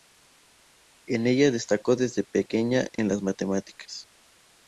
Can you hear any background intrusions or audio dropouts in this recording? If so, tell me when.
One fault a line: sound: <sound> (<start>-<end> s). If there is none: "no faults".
sound: dropout (3.0-3.0 s)